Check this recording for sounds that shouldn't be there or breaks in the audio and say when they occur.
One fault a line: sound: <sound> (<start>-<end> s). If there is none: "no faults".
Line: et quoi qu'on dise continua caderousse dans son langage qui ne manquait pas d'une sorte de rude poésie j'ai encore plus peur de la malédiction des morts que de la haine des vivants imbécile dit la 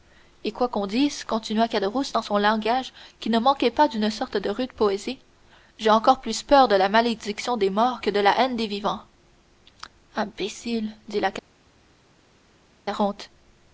no faults